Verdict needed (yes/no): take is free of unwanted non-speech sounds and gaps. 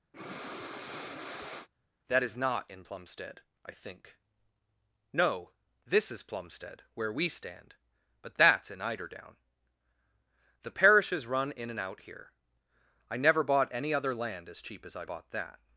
no